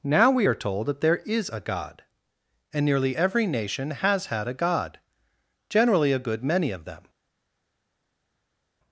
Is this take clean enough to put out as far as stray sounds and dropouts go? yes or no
yes